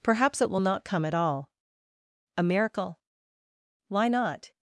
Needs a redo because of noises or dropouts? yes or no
no